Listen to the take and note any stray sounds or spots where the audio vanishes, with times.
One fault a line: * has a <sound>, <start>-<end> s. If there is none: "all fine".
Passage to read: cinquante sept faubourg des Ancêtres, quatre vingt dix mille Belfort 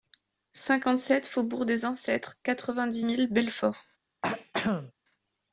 * has a throat clearing, 4.2-4.9 s